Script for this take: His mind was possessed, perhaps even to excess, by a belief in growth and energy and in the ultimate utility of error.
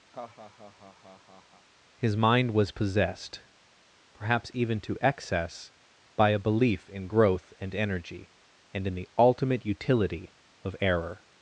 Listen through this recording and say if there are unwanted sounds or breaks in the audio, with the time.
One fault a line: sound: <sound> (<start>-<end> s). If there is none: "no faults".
sound: laugh (0.1-1.7 s)